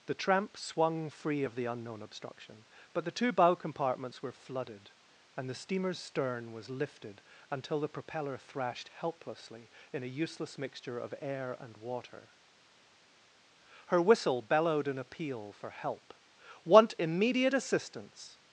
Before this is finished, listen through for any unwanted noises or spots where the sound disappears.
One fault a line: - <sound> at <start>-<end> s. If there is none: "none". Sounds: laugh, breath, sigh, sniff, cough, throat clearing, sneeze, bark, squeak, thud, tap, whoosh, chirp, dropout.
none